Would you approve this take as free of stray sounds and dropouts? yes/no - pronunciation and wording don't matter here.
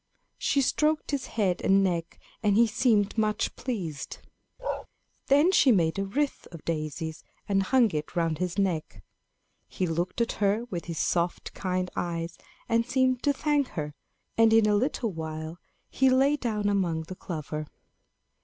no